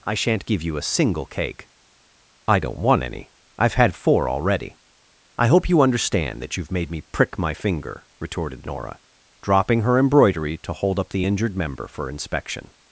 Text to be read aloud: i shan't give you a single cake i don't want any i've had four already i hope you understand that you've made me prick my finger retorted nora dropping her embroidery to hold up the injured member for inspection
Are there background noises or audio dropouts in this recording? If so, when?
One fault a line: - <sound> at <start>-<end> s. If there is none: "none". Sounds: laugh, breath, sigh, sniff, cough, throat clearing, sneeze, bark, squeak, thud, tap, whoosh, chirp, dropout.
none